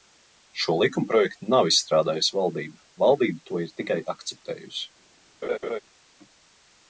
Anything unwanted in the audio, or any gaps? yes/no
yes